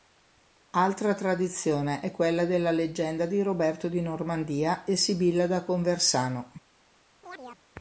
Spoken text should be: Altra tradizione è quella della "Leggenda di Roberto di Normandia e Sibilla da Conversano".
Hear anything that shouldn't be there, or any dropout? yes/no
yes